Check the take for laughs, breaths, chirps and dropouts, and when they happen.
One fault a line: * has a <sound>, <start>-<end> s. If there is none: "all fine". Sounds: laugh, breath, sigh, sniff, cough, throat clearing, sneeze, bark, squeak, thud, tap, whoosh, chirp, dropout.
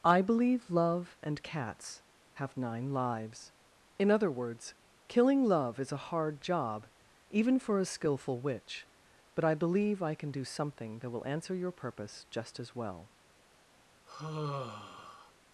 * has a sigh, 14.1-15.3 s